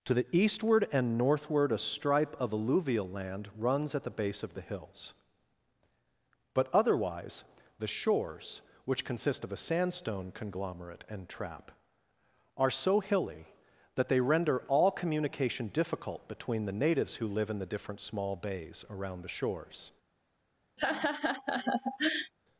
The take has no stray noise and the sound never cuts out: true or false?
false